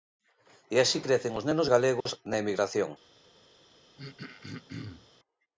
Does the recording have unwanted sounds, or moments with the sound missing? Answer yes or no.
yes